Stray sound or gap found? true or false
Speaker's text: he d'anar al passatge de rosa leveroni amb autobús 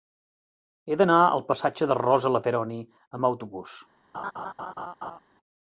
true